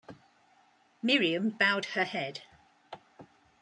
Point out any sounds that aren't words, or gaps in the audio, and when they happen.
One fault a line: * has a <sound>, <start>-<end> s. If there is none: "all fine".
all fine